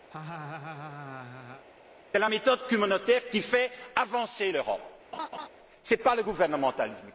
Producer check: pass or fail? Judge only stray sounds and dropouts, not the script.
fail